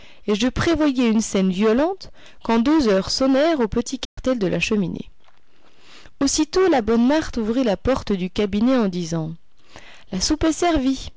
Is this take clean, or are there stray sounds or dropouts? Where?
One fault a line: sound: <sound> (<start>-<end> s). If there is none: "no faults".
sound: dropout (4.0-4.2 s)